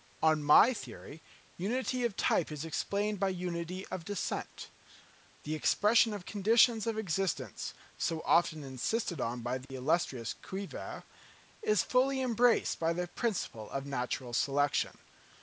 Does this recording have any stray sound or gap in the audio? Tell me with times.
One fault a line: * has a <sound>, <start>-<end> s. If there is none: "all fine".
* has a dropout, 9.7-9.7 s